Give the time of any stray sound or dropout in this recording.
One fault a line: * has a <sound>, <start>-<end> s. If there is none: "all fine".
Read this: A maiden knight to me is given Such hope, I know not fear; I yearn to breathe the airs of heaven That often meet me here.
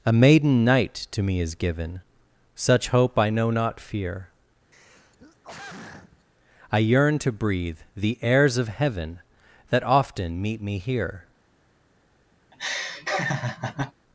* has a throat clearing, 4.7-6.3 s
* has a laugh, 12.5-13.9 s